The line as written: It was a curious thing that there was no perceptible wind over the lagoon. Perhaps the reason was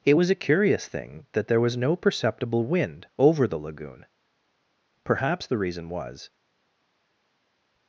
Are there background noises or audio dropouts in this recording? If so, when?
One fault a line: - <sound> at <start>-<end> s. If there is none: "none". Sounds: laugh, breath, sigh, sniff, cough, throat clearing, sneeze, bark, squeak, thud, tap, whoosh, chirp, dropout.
none